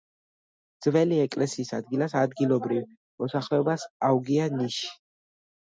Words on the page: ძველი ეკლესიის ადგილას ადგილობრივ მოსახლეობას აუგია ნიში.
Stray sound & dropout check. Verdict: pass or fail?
pass